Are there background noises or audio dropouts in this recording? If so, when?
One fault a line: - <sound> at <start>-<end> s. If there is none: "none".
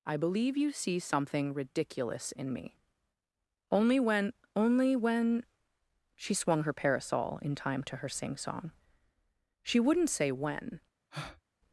- breath at 11.1-11.4 s